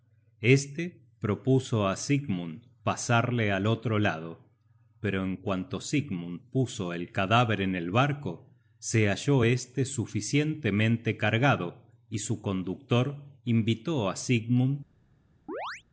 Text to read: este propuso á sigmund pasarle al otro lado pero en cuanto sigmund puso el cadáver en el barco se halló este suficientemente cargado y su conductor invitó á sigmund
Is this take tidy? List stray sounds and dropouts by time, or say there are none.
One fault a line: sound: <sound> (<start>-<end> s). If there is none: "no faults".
sound: chirp (15.5-15.8 s)